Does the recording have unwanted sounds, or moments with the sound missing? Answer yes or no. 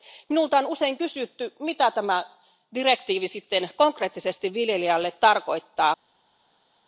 no